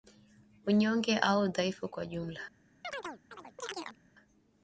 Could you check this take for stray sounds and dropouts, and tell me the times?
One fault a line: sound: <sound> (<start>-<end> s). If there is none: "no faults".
sound: chirp (2.8-4.0 s)